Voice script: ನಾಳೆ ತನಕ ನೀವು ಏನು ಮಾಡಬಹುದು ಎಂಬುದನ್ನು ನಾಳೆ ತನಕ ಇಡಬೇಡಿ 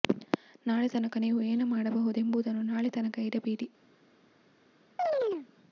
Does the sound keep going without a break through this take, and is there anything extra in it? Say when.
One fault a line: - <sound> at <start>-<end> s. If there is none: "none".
- chirp at 5.0-5.5 s